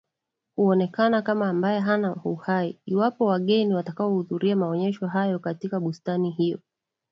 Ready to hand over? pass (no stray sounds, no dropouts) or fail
pass